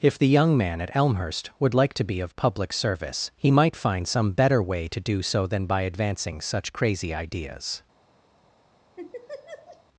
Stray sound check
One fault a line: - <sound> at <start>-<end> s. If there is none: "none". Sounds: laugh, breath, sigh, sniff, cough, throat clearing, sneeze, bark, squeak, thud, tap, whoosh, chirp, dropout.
- laugh at 9.0-9.8 s